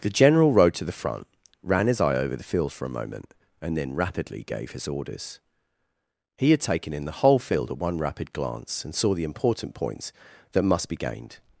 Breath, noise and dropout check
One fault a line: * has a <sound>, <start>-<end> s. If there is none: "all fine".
all fine